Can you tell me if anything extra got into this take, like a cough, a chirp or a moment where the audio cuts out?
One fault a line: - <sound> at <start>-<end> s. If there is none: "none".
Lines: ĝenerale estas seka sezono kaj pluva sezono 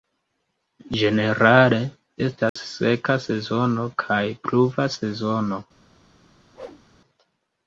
- dropout at 2.5-2.6 s
- whoosh at 6.5-6.8 s